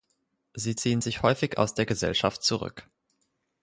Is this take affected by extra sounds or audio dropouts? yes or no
no